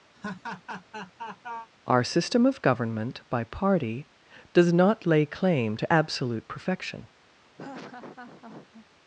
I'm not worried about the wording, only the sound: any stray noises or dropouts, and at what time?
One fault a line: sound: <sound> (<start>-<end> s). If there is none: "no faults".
sound: laugh (0.1-1.7 s)
sound: laugh (7.6-8.9 s)